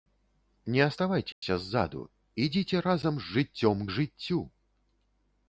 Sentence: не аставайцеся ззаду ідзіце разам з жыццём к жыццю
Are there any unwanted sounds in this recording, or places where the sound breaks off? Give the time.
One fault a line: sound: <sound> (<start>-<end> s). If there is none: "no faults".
sound: dropout (1.3-1.4 s)